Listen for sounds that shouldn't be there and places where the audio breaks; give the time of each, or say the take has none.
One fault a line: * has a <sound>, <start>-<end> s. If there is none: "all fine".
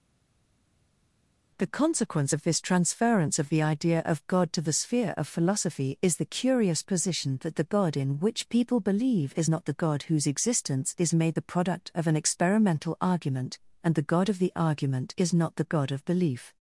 all fine